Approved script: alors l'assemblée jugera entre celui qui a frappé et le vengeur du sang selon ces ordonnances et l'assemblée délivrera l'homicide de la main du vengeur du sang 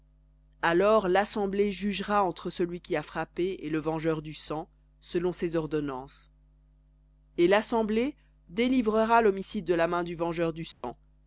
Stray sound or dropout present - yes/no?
yes